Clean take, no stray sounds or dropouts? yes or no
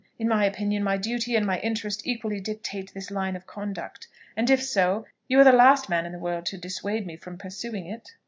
yes